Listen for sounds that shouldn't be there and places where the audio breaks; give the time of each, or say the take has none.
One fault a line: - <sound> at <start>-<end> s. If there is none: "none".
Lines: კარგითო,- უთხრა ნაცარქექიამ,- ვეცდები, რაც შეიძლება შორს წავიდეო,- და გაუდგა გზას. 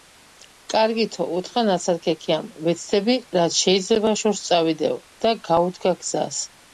none